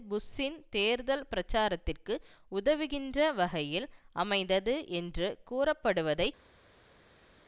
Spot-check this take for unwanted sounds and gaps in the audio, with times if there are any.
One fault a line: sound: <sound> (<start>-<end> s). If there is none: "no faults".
no faults